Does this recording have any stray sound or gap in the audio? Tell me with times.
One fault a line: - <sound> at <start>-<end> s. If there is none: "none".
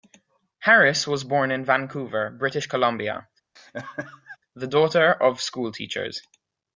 - laugh at 3.6-4.4 s